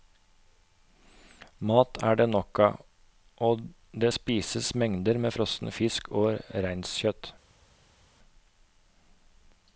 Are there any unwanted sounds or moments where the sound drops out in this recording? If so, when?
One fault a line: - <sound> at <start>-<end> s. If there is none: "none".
none